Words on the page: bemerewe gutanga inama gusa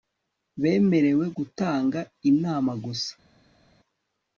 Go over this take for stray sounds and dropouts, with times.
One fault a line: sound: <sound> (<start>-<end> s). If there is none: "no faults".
no faults